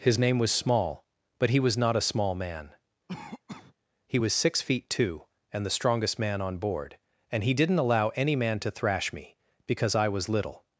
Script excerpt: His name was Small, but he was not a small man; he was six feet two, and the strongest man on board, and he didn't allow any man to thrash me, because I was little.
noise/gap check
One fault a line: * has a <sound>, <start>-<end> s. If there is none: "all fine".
* has a cough, 3.1-3.7 s